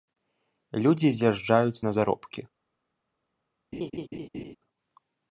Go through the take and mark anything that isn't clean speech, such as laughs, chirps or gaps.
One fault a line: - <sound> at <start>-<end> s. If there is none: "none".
- laugh at 3.7-4.6 s